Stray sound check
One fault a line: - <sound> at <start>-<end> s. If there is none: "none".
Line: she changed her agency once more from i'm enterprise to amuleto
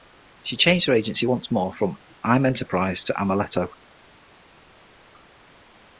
none